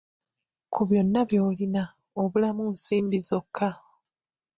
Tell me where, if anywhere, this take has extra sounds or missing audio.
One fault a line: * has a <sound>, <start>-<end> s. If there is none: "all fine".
all fine